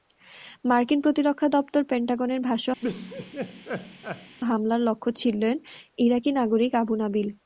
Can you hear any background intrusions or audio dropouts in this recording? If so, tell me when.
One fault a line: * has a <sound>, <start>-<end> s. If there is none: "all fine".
* has a laugh, 2.8-4.4 s